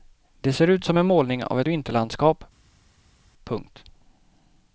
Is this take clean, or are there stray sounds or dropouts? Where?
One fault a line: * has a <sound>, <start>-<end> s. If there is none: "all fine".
all fine